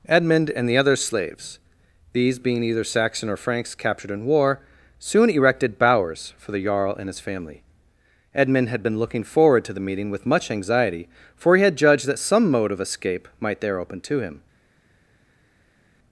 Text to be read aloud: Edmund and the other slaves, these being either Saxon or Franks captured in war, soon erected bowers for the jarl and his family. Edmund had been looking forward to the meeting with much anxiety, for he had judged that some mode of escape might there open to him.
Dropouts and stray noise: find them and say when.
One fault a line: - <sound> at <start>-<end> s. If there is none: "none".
none